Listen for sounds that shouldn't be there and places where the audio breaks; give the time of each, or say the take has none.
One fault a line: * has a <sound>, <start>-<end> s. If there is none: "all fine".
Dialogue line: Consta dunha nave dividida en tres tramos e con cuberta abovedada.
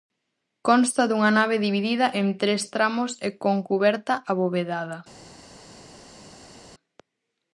all fine